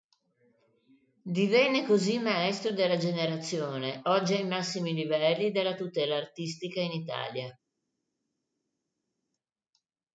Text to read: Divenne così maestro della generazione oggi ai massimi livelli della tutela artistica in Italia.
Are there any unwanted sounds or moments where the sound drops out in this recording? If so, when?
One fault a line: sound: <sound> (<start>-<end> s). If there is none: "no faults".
no faults